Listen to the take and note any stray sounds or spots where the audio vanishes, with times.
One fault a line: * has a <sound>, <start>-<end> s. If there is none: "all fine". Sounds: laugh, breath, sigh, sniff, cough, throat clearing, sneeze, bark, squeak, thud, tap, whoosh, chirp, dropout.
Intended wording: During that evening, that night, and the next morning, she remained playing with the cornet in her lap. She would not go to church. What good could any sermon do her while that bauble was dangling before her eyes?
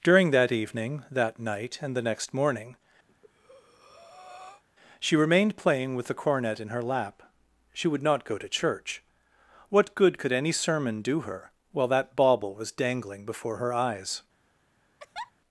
* has a breath, 3.1-4.6 s
* has a laugh, 15.0-15.3 s